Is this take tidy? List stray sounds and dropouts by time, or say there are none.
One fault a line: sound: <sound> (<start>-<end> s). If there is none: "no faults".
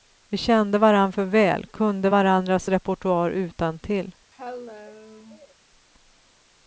sound: cough (4.3-5.6 s)